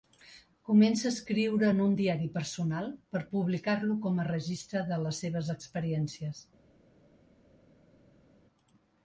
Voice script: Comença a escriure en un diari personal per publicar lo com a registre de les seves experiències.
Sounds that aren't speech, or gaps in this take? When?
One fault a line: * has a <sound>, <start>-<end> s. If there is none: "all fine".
all fine